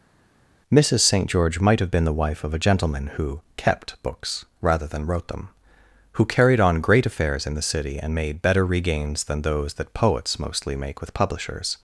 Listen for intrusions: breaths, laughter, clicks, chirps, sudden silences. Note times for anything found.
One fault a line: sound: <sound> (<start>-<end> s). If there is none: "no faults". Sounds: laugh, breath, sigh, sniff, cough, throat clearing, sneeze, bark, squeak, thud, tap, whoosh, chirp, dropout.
no faults